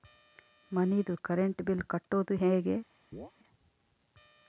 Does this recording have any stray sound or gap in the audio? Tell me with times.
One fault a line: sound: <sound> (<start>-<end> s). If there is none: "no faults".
sound: chirp (3.1-3.3 s)